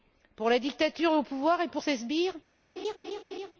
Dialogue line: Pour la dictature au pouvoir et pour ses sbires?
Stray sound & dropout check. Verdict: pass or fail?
fail